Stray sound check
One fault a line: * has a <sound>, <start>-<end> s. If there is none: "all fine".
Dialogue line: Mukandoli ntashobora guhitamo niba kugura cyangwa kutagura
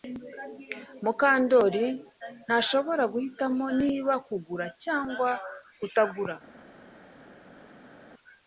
all fine